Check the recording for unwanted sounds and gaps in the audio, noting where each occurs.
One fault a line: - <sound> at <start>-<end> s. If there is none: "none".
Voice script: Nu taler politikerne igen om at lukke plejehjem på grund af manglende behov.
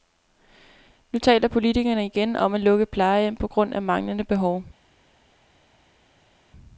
none